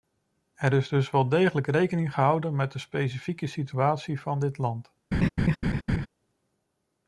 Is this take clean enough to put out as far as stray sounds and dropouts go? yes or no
no